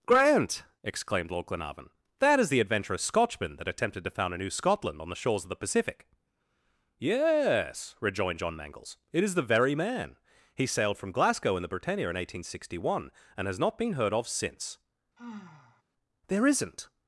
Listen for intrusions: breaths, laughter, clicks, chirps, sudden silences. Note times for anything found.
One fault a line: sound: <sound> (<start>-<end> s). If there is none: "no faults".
sound: sigh (15.2-15.8 s)